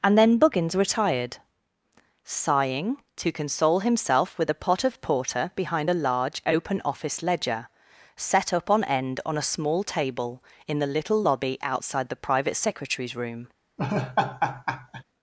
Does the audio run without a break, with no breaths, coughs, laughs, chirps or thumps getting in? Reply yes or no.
no